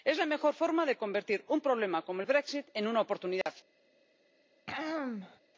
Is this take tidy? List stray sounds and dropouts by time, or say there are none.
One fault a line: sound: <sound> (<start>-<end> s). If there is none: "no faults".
sound: dropout (3.4-3.5 s)
sound: throat clearing (4.7-5.4 s)